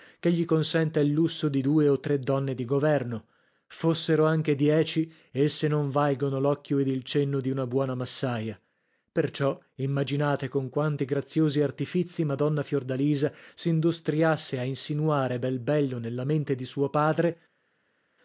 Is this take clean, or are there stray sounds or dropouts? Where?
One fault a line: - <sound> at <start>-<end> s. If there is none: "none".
none